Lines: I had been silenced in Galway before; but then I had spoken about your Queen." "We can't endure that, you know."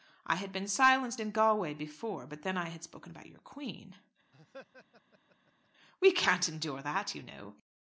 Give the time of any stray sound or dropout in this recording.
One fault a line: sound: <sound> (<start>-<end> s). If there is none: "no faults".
sound: laugh (4.3-5.7 s)